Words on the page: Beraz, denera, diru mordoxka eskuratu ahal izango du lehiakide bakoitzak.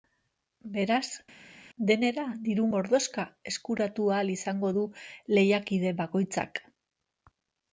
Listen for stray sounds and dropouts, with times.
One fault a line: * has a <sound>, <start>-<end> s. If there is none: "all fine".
all fine